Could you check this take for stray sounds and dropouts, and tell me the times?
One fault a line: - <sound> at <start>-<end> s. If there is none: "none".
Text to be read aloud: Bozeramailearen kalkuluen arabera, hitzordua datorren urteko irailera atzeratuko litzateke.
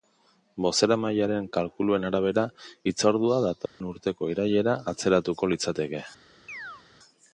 - dropout at 3.7-3.8 s
- chirp at 6.5-6.8 s